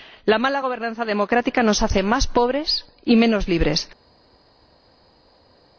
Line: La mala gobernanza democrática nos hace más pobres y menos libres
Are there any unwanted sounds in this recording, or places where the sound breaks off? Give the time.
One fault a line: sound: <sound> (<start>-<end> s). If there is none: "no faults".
no faults